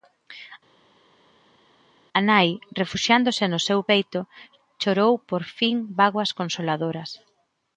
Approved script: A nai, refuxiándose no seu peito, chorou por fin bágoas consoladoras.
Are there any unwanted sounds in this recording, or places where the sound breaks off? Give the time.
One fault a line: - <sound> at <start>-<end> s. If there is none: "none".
none